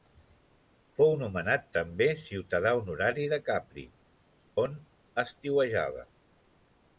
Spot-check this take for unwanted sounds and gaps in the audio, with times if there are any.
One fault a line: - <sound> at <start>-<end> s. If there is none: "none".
none